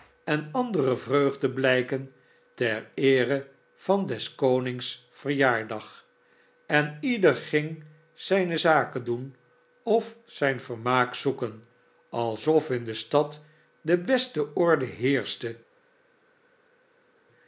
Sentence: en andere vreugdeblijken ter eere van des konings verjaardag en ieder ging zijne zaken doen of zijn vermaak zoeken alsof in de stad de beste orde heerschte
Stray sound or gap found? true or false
false